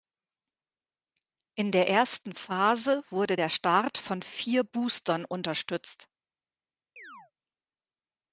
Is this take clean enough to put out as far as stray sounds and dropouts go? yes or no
no